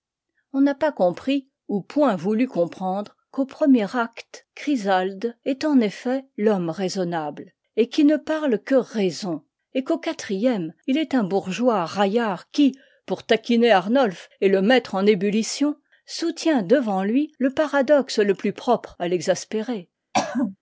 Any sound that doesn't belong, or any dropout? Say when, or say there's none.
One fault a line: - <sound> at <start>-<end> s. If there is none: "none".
- throat clearing at 20.1-20.6 s